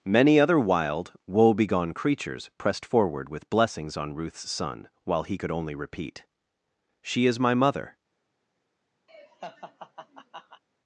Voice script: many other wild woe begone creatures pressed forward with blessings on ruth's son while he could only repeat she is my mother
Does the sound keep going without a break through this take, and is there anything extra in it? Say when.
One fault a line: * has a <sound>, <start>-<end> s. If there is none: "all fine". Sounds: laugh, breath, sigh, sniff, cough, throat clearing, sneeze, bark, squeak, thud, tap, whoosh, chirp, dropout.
* has a laugh, 9.1-10.6 s